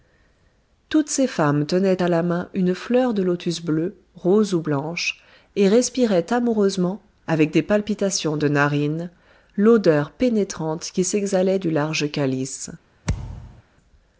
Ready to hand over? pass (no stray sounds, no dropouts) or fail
fail